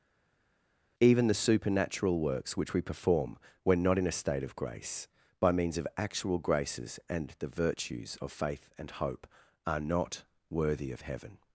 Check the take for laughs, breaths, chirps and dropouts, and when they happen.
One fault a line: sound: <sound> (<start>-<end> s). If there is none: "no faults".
no faults